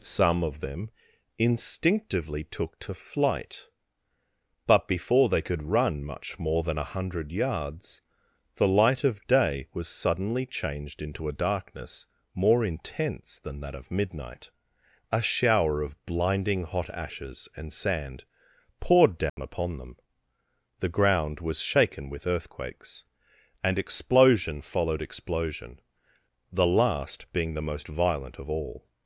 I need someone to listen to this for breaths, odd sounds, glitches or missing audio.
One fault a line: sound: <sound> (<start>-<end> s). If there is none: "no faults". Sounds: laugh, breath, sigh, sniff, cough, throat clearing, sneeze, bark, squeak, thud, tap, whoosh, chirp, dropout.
sound: dropout (19.3-19.4 s)